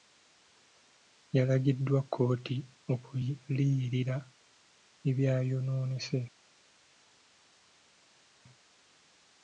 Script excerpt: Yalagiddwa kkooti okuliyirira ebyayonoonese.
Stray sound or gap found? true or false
false